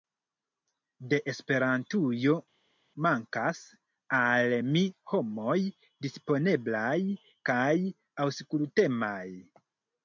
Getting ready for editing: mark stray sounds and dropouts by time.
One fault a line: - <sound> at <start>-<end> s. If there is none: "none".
none